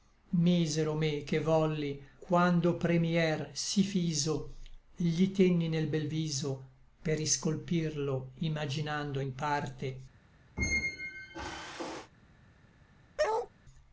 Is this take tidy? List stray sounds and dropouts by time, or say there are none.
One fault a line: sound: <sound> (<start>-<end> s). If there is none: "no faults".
sound: squeak (10.6-12.1 s)
sound: bark (13.2-13.5 s)